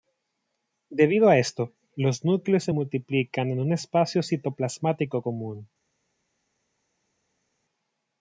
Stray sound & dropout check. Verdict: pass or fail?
pass